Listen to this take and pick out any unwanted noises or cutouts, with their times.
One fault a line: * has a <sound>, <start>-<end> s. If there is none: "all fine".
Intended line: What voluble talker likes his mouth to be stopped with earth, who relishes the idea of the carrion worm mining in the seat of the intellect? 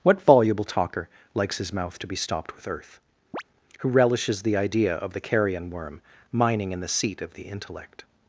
* has a chirp, 3.3-3.4 s